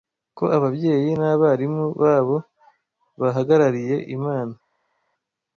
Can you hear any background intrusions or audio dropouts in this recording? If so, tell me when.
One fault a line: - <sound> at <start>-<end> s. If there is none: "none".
none